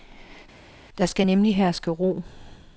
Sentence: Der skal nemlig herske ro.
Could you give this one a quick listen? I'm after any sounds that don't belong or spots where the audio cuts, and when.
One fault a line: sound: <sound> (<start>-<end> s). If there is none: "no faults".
no faults